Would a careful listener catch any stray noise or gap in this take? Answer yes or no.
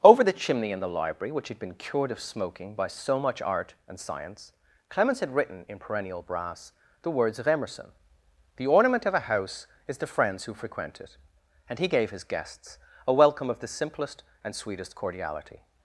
no